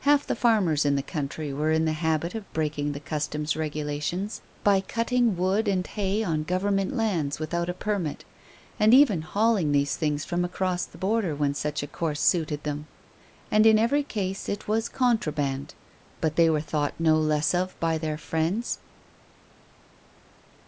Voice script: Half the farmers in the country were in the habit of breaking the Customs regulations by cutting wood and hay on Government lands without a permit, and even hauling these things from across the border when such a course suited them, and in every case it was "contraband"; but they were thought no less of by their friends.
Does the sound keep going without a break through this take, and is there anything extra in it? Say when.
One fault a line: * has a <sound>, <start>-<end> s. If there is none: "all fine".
all fine